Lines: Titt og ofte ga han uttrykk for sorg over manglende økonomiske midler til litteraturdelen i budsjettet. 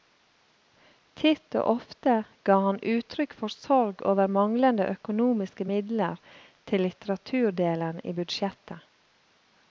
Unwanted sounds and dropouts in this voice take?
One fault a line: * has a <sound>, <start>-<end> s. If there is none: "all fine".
all fine